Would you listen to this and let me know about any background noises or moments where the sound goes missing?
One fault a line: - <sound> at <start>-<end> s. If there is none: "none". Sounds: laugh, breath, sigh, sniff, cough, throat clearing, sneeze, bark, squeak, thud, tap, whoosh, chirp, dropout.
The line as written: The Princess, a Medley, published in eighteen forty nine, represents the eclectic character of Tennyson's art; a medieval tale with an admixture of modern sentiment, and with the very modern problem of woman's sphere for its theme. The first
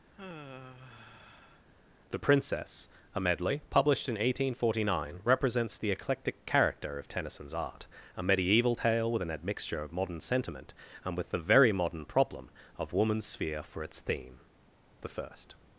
- sigh at 0.1-1.7 s